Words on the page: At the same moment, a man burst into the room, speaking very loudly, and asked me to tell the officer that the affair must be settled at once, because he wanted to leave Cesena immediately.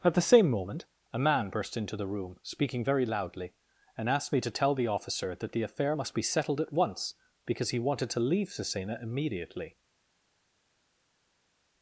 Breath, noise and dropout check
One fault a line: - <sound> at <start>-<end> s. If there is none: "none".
none